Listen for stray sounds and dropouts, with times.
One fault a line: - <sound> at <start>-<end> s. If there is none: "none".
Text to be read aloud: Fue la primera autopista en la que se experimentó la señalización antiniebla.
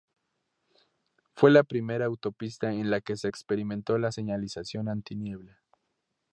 none